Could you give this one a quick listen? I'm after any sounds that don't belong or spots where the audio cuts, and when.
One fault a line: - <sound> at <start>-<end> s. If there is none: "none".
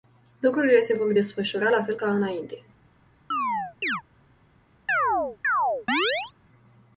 - chirp at 3.3-4.0 s
- chirp at 4.9-6.3 s